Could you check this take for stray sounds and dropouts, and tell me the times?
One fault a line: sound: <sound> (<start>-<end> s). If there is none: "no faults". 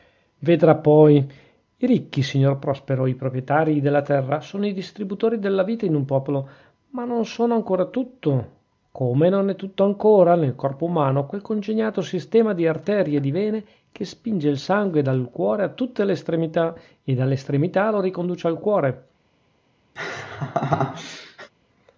sound: laugh (20.0-21.5 s)